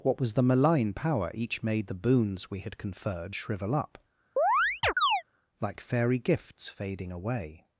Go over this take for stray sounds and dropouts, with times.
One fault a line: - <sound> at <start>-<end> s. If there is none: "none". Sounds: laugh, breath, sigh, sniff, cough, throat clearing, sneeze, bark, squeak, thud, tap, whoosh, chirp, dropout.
- chirp at 4.4-5.2 s